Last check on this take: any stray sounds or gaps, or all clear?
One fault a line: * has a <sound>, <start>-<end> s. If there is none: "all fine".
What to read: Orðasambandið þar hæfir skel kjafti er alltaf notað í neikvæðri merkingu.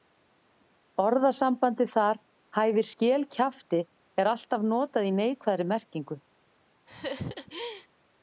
* has a laugh, 6.9-7.9 s